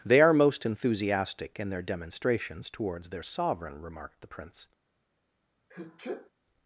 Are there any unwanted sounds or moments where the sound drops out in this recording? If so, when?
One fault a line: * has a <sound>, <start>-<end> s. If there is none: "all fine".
* has a sneeze, 5.7-6.3 s